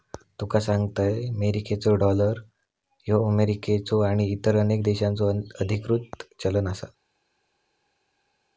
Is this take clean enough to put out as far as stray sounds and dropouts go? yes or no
yes